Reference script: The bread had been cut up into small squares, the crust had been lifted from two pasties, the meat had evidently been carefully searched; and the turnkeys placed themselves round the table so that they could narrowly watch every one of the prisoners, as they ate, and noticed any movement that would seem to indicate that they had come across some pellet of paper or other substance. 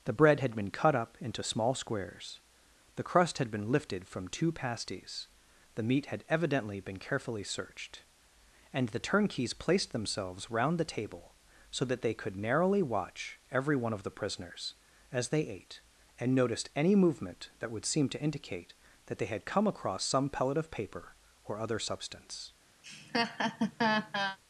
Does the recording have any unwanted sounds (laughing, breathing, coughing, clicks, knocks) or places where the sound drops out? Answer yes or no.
yes